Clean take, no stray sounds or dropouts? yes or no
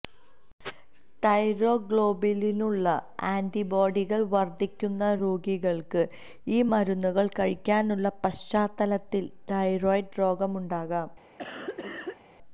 no